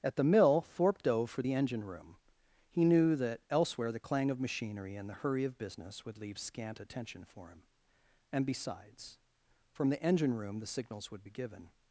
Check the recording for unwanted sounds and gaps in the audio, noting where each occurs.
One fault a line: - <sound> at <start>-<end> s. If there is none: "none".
none